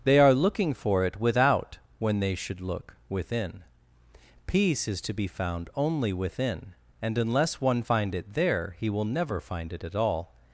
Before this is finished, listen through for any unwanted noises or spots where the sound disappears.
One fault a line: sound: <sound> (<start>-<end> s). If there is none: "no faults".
no faults